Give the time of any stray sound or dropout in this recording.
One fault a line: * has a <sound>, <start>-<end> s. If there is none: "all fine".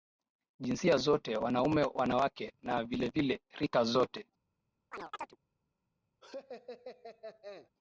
* has a chirp, 4.9-5.4 s
* has a laugh, 6.2-7.7 s